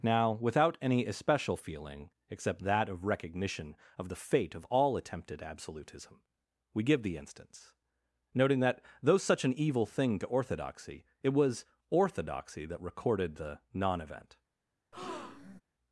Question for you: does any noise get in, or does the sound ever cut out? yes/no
yes